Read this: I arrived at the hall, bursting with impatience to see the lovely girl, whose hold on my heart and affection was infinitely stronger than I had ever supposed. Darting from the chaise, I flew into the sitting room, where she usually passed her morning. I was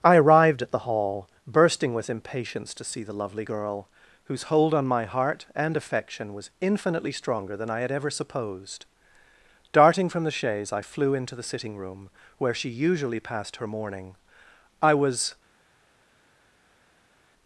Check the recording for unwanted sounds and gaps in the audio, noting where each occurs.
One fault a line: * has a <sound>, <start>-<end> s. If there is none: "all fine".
all fine